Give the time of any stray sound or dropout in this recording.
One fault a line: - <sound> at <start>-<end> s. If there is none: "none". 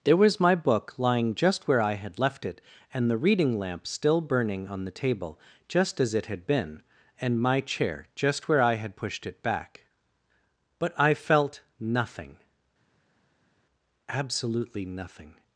none